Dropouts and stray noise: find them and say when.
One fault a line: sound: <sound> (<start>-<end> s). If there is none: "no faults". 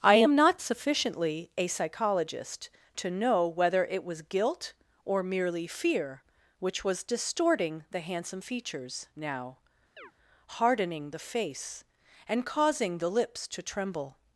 sound: chirp (10.0-10.1 s)